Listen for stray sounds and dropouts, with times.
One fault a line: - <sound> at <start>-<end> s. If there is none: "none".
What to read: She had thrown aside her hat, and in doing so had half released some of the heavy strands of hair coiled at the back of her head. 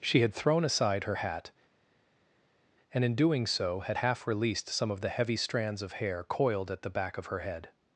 none